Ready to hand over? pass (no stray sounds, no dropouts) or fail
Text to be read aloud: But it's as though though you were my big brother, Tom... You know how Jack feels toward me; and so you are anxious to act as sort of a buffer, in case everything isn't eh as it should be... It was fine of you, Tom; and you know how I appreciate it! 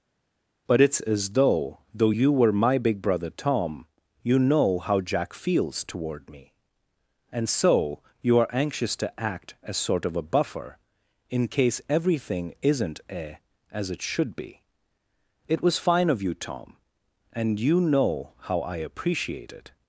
pass